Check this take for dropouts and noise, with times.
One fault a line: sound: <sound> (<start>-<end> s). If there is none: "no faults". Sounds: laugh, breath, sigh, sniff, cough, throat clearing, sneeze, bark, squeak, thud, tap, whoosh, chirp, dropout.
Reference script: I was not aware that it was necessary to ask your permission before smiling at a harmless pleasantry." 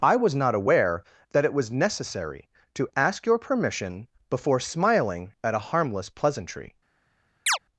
sound: chirp (7.5-7.6 s)